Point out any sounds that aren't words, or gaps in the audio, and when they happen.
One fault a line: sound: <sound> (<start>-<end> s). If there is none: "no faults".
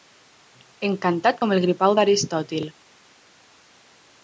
no faults